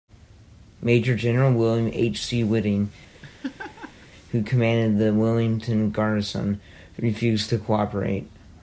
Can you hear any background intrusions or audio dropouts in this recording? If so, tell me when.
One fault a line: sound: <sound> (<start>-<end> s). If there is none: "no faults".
sound: laugh (3.1-4.1 s)